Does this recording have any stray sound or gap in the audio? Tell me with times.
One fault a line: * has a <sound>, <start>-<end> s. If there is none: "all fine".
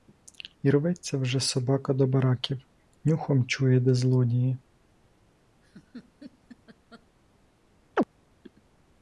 * has a laugh, 5.6-7.1 s
* has a chirp, 8.0-8.1 s